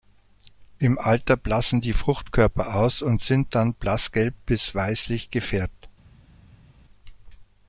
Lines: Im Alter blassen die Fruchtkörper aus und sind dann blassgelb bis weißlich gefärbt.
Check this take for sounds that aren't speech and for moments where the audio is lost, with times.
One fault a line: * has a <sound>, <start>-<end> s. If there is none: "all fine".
all fine